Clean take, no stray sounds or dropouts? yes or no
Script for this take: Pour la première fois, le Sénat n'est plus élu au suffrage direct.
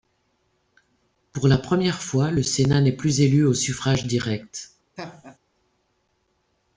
no